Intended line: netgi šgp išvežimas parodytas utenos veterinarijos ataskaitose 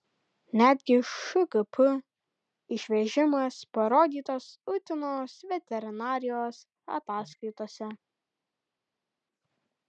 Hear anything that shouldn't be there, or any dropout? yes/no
no